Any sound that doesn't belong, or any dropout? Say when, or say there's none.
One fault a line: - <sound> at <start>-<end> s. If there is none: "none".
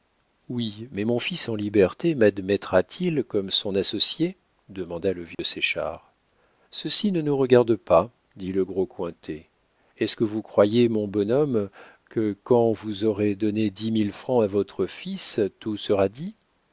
- dropout at 5.3-5.4 s